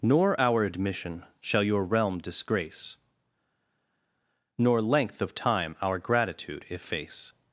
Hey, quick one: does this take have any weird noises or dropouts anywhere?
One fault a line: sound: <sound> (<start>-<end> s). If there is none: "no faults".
no faults